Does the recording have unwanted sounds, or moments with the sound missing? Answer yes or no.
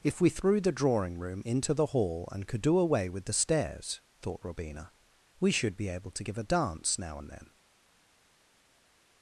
no